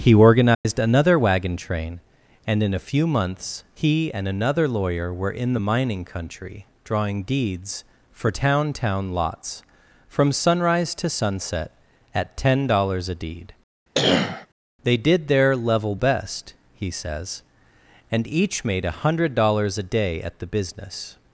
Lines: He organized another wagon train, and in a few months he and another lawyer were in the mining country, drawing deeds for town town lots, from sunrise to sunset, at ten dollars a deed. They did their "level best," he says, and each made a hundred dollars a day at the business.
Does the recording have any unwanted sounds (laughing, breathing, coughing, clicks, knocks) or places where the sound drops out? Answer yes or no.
yes